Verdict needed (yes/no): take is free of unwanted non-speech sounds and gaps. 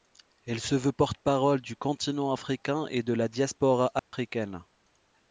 no